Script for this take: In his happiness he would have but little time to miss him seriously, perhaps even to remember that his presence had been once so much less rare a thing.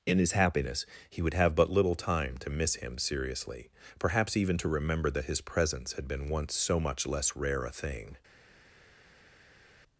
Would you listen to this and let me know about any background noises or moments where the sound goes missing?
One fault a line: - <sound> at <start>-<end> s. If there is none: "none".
none